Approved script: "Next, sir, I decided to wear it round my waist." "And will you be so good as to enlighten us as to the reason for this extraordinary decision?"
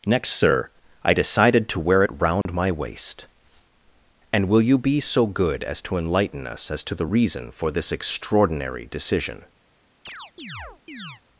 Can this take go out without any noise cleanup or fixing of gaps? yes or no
no